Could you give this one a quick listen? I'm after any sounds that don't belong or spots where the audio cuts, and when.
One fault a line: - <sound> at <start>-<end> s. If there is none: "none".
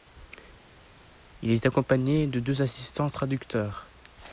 none